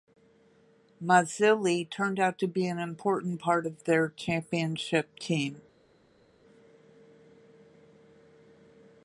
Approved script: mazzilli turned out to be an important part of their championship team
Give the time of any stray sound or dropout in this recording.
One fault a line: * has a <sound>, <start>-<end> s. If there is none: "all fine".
all fine